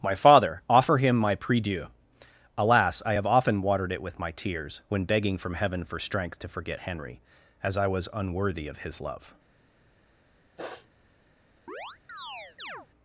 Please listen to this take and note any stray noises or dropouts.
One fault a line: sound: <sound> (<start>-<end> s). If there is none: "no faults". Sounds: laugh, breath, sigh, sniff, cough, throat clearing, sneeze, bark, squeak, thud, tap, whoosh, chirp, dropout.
sound: sniff (10.6-10.9 s)
sound: chirp (11.7-12.9 s)